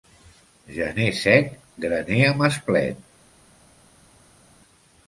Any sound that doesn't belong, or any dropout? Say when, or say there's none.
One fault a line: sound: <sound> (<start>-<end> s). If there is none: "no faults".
no faults